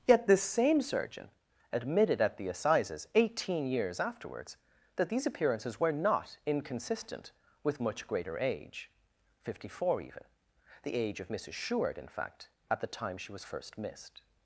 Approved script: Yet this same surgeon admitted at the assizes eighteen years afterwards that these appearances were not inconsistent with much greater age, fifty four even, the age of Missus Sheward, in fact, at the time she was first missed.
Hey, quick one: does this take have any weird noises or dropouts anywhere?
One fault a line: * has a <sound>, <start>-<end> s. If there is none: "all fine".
all fine